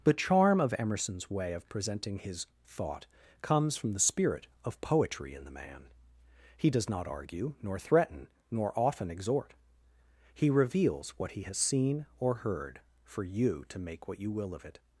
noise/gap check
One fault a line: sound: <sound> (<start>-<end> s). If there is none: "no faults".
no faults